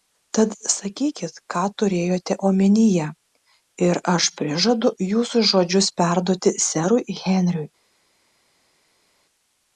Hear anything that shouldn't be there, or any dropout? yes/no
no